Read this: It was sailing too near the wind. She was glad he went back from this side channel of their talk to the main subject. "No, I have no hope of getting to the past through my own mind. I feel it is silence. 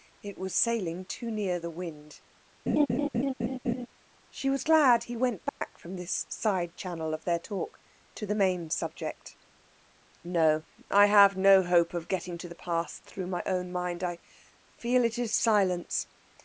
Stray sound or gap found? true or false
true